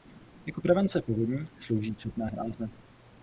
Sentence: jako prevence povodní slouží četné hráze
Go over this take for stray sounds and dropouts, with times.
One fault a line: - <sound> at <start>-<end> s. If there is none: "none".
none